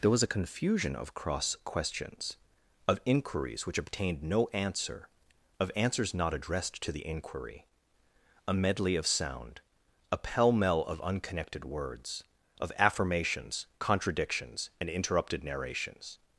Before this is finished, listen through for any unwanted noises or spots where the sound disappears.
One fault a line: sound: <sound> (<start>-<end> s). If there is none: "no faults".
no faults